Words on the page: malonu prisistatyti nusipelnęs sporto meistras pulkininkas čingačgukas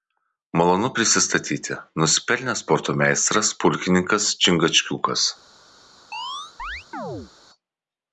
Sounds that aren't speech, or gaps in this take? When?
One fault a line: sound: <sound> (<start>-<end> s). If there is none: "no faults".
sound: chirp (6.1-7.3 s)